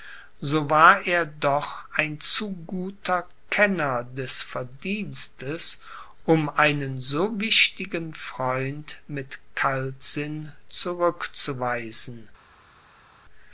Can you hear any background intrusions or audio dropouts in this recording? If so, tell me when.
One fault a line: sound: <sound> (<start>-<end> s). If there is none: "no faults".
no faults